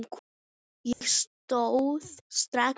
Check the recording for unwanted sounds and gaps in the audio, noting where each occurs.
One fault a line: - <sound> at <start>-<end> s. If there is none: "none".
- dropout at 0.9-1.0 s